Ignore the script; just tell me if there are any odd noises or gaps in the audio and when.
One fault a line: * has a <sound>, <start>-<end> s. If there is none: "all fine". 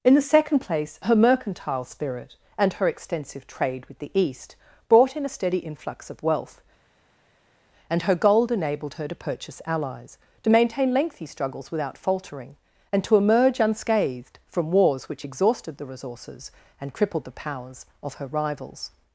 all fine